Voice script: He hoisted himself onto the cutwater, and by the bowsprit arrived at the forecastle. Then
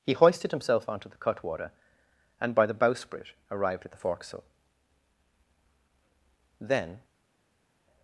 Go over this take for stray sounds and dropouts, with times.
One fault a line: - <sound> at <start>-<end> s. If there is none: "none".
none